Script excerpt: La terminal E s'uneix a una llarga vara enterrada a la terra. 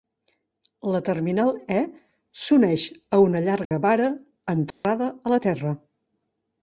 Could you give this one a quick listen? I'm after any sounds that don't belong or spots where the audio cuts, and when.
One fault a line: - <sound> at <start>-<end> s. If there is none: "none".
- dropout at 3.7-3.7 s
- dropout at 4.7-4.8 s